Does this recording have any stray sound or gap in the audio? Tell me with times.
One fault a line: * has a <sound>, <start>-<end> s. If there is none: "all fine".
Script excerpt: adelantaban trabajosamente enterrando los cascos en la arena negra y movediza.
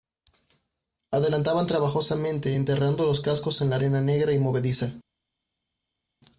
all fine